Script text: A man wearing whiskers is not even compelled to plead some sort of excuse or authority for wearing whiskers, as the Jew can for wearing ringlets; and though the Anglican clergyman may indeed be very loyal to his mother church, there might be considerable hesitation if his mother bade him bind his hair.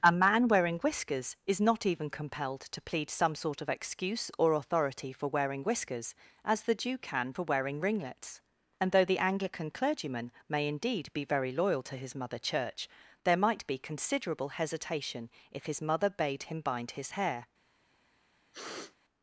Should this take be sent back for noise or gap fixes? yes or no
yes